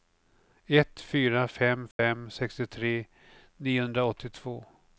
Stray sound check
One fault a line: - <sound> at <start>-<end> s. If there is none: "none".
- dropout at 1.9-2.0 s